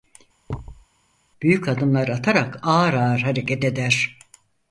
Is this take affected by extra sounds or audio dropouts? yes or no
yes